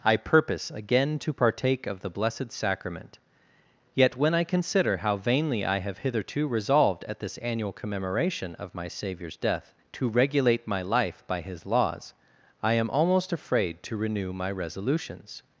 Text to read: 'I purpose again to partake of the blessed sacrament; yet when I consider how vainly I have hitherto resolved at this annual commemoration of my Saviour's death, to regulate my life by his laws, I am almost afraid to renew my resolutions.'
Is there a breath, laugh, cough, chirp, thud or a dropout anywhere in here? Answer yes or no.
no